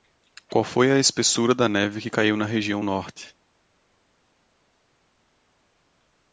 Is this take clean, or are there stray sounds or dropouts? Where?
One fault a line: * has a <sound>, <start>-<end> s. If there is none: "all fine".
all fine